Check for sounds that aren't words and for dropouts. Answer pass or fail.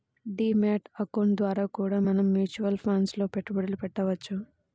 pass